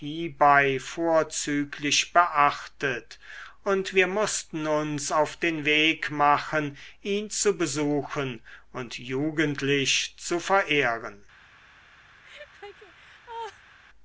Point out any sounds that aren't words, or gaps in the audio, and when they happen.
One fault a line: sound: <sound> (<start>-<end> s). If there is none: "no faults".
sound: laugh (12.2-13.8 s)